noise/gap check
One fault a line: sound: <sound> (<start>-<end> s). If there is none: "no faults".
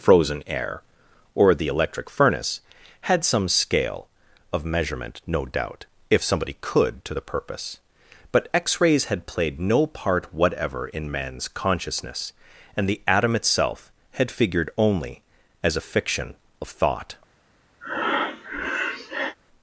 sound: breath (17.8-19.4 s)